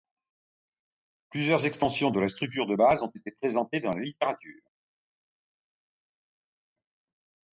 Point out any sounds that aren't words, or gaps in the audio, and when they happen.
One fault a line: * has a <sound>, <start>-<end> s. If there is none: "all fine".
all fine